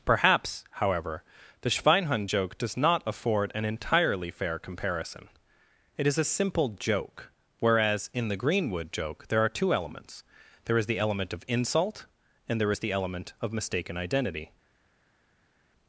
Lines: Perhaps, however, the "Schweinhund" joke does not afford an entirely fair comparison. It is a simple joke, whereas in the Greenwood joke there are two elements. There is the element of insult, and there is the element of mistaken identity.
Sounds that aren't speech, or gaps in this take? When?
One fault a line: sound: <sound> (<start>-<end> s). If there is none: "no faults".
no faults